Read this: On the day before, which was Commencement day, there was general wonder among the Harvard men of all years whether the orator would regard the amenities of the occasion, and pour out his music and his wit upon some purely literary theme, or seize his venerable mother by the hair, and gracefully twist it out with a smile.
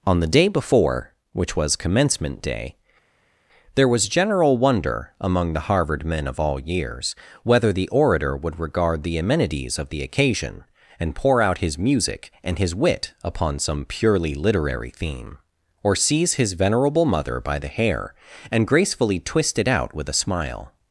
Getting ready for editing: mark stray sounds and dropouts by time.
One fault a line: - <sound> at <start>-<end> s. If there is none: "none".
none